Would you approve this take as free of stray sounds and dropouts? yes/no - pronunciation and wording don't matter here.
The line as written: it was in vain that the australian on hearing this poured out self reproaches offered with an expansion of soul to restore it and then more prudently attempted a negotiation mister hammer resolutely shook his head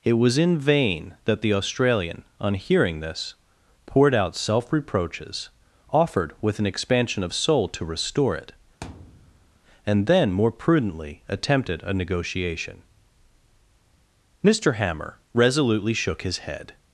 no